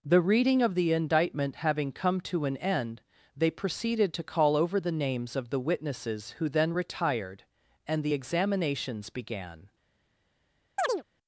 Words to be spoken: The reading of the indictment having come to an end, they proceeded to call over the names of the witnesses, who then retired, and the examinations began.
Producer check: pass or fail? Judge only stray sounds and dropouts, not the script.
fail